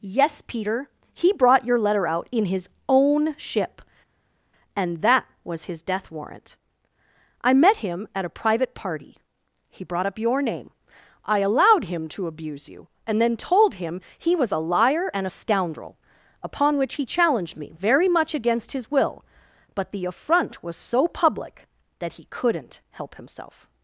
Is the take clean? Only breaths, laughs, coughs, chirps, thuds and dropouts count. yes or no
yes